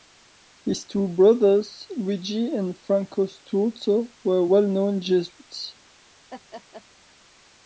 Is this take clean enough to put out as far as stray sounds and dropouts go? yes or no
no